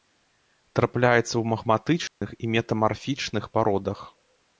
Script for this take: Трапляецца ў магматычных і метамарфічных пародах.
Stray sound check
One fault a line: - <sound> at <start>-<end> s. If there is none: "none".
- dropout at 2.1-2.2 s